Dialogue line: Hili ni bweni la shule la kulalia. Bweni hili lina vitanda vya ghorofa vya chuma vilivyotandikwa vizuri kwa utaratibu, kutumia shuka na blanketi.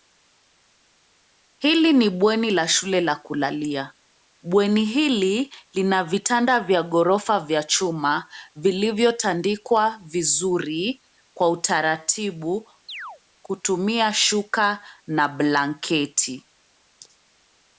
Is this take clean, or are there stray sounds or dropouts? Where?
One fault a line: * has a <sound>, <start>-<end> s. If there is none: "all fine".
* has a chirp, 12.9-13.2 s